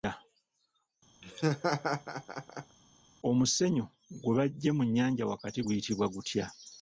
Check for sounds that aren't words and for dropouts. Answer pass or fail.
fail